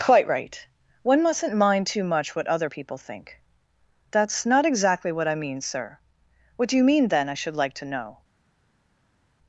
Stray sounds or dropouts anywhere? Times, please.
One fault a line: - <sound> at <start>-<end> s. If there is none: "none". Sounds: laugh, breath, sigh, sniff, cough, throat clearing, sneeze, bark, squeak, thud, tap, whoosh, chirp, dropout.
none